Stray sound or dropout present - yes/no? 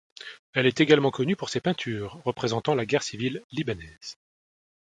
no